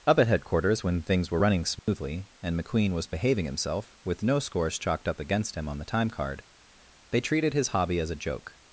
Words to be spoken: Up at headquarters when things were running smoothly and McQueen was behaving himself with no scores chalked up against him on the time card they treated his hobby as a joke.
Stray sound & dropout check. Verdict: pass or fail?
fail